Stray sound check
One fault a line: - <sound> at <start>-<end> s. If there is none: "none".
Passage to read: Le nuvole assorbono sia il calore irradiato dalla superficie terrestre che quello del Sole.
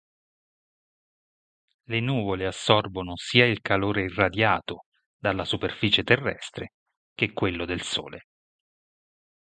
none